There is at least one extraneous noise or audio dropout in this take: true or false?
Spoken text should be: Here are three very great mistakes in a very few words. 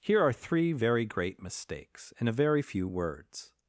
false